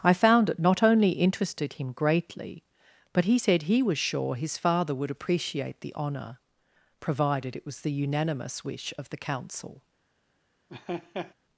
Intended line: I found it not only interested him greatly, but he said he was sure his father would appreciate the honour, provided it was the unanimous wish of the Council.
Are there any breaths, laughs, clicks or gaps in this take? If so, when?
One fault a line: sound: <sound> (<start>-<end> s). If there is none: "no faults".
sound: laugh (10.7-11.3 s)